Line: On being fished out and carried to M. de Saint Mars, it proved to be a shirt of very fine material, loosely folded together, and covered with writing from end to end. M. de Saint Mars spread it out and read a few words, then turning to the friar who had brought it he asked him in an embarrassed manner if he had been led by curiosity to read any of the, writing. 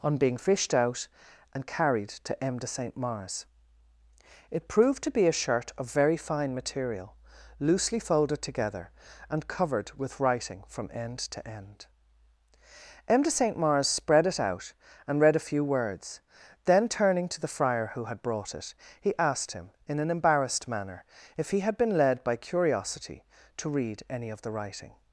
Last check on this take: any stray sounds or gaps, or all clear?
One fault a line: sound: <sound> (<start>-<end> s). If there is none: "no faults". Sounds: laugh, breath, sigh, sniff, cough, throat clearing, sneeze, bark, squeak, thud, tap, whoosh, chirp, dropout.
no faults